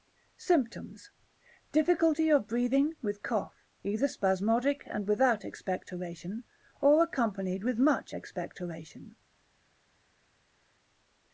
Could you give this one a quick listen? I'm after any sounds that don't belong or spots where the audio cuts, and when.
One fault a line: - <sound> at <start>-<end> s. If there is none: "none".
none